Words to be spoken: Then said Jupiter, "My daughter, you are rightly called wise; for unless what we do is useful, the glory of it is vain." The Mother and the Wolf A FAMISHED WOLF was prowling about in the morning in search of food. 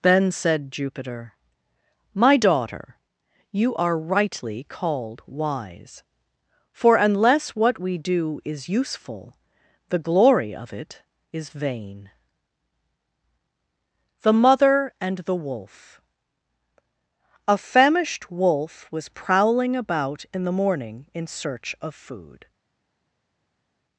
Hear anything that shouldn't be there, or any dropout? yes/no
no